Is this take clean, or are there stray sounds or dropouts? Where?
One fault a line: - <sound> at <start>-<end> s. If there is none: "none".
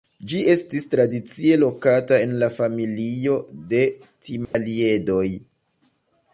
- dropout at 4.5-4.5 s